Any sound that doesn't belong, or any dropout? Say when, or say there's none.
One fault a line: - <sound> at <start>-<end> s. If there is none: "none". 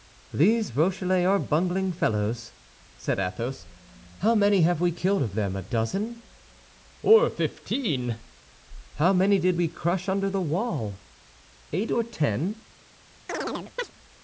- chirp at 13.3-13.9 s